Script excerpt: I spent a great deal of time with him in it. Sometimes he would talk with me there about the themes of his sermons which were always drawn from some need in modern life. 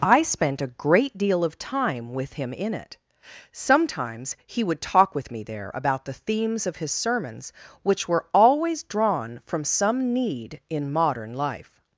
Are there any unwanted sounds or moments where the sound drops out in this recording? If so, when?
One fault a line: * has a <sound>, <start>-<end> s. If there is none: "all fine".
all fine